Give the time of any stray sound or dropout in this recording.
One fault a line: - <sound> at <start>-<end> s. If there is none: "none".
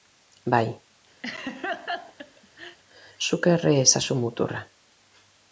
- laugh at 1.2-2.8 s